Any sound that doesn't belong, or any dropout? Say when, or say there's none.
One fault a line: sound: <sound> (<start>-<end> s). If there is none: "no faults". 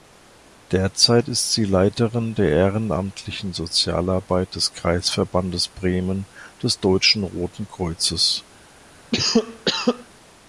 sound: cough (9.1-10.1 s)